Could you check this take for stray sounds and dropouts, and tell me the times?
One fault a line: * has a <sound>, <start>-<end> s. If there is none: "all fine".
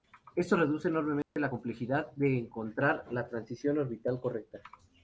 * has a dropout, 1.2-1.4 s